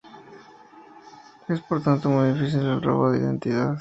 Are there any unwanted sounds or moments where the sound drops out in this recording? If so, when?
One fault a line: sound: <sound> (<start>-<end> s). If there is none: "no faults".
no faults